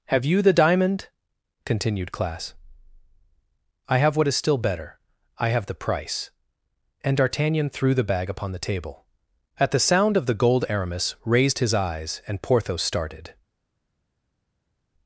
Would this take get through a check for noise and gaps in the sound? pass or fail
pass